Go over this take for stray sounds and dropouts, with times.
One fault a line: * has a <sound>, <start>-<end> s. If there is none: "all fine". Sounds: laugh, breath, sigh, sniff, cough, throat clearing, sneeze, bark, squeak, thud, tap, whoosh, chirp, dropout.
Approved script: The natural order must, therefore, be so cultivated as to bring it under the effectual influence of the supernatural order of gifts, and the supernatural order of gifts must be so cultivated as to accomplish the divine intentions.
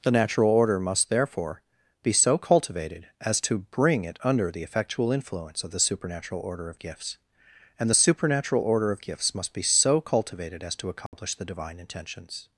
* has a dropout, 11.1-11.1 s